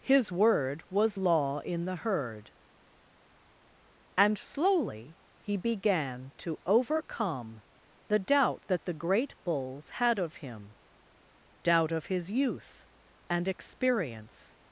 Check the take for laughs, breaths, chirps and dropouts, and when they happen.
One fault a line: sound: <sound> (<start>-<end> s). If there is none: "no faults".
no faults